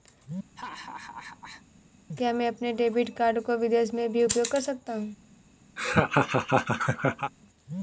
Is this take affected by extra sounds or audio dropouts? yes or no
yes